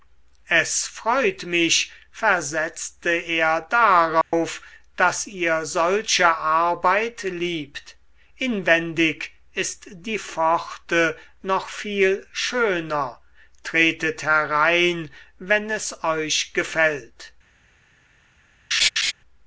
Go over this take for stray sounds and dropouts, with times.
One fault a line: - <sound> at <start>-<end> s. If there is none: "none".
- dropout at 4.2-4.3 s
- laugh at 18.7-19.1 s